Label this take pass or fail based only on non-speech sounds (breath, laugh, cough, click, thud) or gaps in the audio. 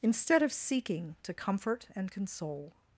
pass